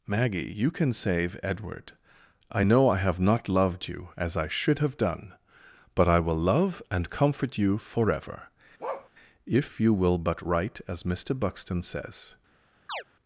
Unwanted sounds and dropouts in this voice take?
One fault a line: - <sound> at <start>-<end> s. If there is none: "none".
- bark at 8.8-9.1 s
- chirp at 12.9-13.0 s